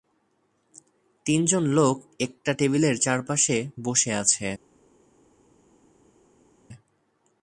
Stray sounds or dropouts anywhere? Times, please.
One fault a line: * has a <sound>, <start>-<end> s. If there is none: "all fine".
all fine